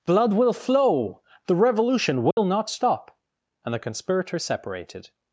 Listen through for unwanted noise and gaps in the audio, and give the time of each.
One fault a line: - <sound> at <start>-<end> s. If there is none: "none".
- dropout at 2.3-2.4 s